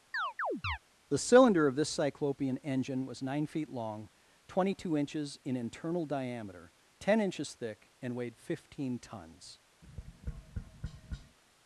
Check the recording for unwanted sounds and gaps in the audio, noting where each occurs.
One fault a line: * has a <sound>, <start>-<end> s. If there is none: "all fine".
* has a chirp, 0.1-0.8 s
* has a tap, 9.8-11.4 s